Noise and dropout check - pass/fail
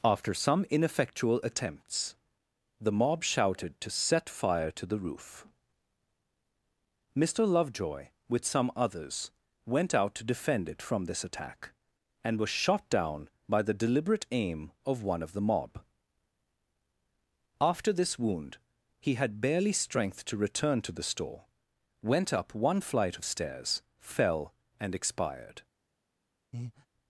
fail